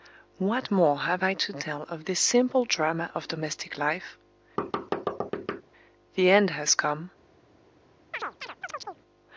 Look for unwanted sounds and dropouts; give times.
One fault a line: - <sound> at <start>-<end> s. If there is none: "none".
- thud at 4.6-5.6 s
- chirp at 8.1-9.0 s